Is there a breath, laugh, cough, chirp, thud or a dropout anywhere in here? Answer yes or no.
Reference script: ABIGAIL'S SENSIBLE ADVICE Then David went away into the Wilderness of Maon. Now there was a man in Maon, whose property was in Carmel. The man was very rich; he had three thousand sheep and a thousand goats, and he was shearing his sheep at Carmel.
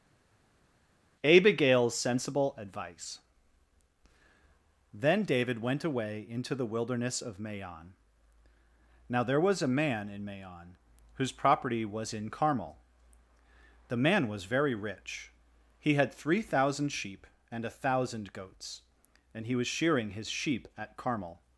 no